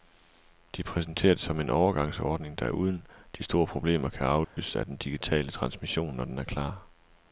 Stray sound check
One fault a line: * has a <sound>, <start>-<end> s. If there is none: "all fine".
* has a dropout, 4.4-4.6 s